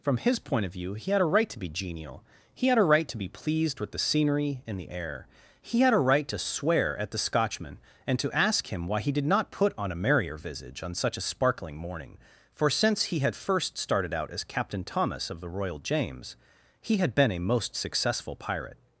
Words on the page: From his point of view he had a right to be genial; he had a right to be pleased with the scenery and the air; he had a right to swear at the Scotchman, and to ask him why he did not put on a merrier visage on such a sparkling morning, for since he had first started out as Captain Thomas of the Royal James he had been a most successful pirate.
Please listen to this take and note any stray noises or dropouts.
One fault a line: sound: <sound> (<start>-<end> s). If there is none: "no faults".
no faults